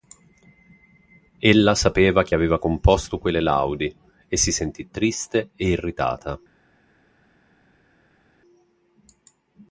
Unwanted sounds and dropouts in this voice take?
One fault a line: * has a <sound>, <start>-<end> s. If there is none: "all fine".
all fine